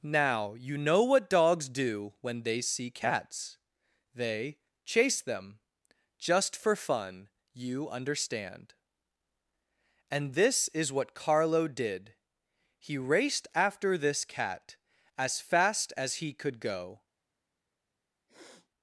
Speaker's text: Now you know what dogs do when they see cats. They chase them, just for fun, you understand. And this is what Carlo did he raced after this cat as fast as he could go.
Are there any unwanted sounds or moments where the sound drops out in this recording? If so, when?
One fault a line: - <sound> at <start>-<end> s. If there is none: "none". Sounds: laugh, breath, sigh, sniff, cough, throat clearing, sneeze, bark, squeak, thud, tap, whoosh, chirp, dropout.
- sniff at 18.3-18.7 s